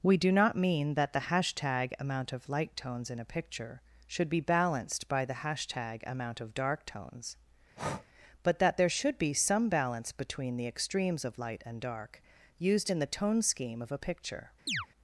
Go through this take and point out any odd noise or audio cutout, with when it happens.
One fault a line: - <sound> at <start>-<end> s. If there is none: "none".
- breath at 7.8-8.1 s
- chirp at 14.7-14.9 s